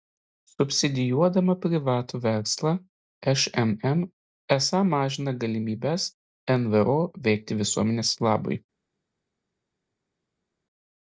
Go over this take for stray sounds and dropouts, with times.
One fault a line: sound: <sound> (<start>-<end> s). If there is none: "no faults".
no faults